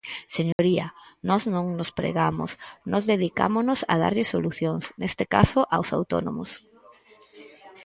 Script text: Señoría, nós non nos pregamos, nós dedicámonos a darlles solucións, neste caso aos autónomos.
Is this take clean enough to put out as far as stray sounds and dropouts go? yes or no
no